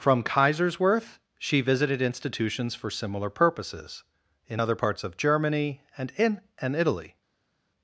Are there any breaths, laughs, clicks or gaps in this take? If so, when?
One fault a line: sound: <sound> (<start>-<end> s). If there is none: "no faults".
no faults